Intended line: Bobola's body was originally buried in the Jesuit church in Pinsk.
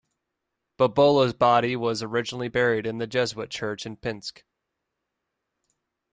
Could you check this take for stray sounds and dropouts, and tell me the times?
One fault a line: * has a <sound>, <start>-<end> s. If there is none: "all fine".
all fine